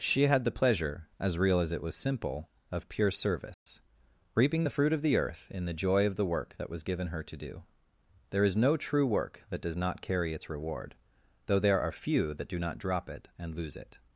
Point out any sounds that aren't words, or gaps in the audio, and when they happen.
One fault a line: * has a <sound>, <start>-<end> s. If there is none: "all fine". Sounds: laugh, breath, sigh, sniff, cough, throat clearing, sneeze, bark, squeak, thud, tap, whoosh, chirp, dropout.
* has a dropout, 3.5-3.7 s